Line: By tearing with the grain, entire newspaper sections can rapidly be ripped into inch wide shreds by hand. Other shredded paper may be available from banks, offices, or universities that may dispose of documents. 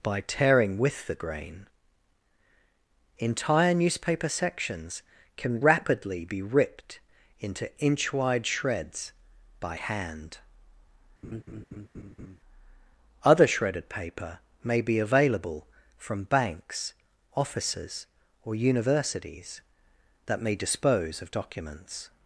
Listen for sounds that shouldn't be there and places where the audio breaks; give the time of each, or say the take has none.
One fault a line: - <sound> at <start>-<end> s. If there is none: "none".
- laugh at 11.2-12.4 s